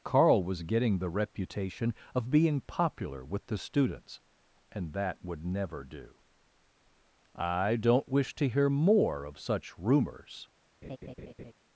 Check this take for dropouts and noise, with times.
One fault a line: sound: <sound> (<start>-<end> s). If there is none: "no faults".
sound: laugh (10.8-11.5 s)